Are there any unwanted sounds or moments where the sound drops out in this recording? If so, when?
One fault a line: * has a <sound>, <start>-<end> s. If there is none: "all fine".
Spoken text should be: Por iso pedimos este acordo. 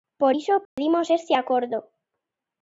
* has a dropout, 0.7-0.8 s